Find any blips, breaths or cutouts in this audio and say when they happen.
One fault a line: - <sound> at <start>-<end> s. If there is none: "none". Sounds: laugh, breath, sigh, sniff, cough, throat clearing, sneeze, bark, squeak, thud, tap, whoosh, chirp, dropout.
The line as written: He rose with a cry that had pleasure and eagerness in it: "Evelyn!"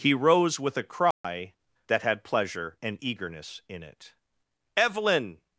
- dropout at 1.1-1.2 s